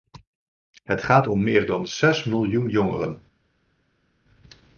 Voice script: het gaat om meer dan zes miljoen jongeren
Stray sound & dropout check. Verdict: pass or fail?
pass